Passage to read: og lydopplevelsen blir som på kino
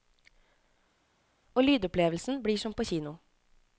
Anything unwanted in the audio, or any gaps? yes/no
no